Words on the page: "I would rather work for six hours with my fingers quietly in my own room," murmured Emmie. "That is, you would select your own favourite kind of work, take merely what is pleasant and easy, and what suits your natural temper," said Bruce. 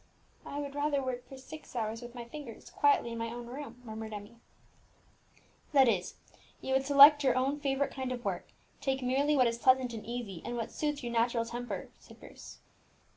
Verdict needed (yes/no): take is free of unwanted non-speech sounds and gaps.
yes